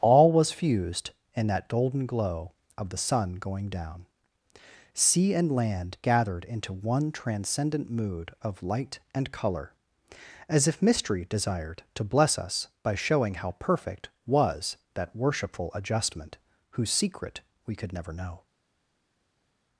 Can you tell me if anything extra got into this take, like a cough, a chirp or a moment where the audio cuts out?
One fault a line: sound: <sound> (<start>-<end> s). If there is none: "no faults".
no faults